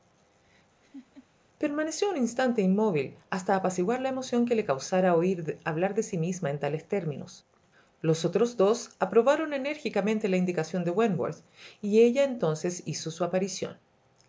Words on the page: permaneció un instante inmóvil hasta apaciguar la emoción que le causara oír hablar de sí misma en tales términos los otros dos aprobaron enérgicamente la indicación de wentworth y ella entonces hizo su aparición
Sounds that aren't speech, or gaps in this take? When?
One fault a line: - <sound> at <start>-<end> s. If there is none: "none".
- laugh at 0.8-1.3 s